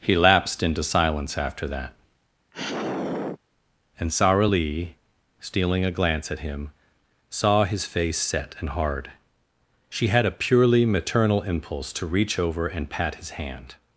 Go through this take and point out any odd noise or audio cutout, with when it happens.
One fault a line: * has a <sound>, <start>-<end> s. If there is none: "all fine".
* has a sigh, 2.5-3.4 s